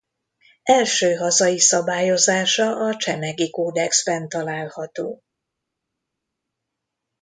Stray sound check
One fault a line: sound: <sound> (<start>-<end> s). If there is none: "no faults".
no faults